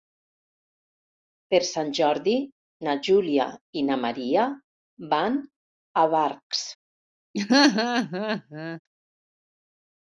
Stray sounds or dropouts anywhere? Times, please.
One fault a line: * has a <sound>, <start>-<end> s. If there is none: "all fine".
* has a laugh, 7.3-8.8 s